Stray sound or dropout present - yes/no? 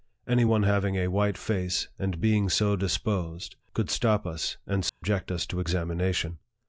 yes